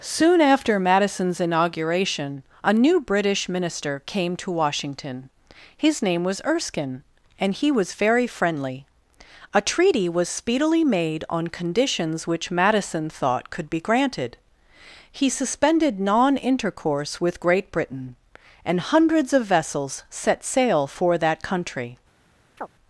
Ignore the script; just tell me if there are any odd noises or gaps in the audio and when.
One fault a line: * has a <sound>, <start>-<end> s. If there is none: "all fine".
* has a chirp, 22.6-22.7 s